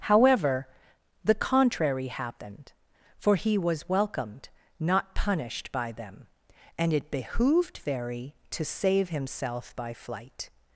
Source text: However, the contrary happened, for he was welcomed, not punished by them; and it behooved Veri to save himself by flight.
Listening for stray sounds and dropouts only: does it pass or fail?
pass